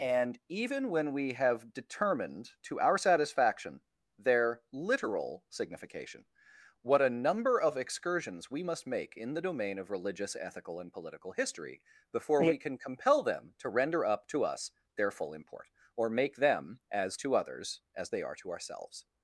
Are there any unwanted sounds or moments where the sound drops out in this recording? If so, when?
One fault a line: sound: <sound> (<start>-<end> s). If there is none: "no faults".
no faults